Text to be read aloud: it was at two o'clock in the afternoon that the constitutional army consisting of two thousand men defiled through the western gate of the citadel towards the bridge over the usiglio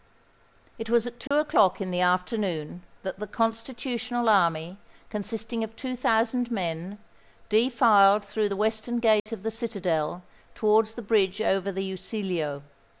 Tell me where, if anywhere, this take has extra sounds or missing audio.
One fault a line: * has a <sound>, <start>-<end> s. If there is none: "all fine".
* has a dropout, 1.3-1.3 s
* has a dropout, 9.2-9.3 s